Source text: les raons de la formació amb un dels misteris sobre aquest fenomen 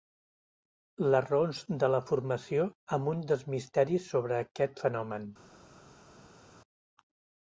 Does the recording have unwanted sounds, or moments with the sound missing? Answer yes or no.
no